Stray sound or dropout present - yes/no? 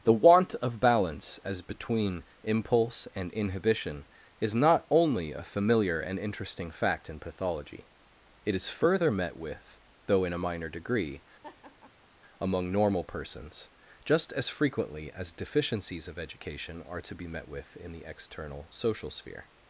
yes